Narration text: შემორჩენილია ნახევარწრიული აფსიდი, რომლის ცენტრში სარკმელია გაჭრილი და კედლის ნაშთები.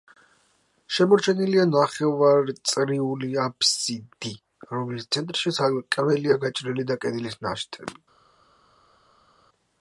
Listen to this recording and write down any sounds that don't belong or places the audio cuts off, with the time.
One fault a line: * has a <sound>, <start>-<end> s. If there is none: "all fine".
all fine